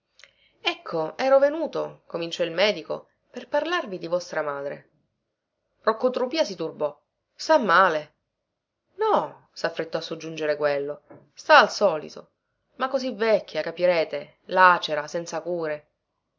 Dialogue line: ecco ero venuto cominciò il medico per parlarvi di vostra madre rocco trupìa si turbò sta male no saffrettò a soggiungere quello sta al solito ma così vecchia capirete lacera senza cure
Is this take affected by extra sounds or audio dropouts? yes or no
no